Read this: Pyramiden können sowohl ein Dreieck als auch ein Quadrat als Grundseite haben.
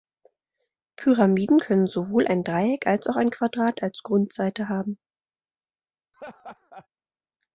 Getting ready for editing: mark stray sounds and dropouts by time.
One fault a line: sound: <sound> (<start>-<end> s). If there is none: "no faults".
sound: laugh (6.1-6.9 s)